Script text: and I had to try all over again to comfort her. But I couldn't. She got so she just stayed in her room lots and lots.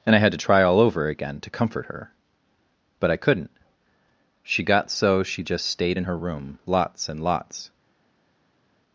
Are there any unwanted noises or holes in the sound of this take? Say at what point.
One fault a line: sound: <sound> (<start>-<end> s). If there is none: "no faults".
no faults